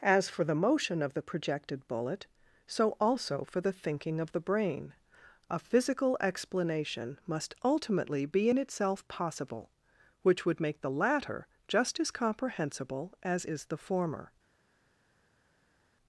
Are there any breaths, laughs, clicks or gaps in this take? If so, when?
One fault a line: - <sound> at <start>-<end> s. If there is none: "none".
none